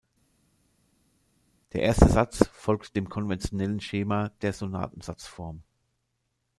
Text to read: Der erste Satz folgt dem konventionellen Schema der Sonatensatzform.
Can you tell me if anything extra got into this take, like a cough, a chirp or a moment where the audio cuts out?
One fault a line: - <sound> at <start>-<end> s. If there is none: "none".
none